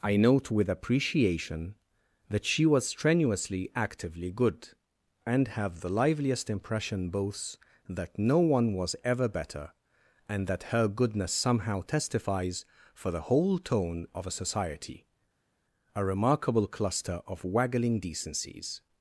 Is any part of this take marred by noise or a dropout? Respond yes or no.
no